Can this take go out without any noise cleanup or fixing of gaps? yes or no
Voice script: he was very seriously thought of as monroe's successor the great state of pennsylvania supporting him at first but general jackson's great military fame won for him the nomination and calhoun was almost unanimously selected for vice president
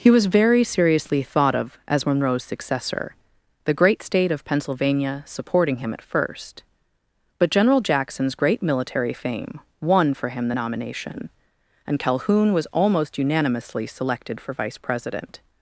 yes